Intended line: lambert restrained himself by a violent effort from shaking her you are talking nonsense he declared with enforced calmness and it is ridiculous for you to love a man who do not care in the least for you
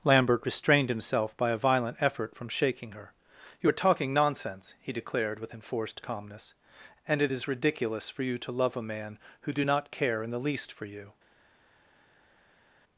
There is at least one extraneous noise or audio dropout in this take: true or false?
false